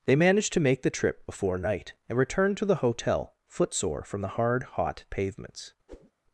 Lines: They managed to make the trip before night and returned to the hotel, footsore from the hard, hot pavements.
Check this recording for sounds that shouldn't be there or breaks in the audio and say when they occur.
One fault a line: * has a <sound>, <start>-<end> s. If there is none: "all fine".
* has a whoosh, 5.9-6.1 s